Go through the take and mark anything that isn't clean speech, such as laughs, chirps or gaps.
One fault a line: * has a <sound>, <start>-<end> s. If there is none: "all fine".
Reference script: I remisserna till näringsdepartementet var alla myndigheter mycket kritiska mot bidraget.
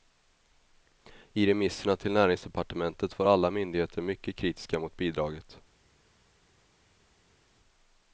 all fine